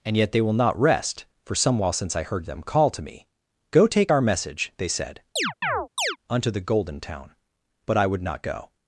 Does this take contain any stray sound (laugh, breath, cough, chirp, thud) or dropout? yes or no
yes